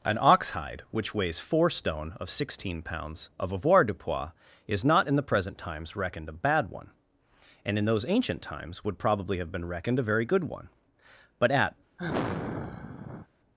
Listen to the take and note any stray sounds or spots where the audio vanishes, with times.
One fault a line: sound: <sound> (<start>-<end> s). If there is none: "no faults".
sound: sigh (12.0-13.3 s)